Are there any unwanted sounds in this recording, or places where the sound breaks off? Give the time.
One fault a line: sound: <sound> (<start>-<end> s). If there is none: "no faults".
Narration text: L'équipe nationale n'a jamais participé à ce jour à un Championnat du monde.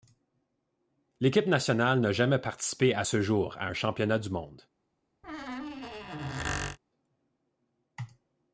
sound: squeak (5.2-6.8 s)